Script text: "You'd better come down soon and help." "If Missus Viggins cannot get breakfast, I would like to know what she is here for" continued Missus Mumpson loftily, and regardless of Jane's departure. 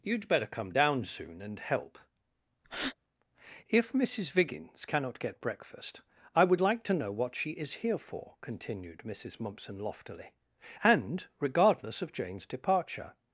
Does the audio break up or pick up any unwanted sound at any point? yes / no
yes